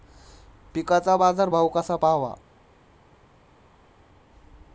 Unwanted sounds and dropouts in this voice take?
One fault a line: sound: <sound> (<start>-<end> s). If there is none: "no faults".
no faults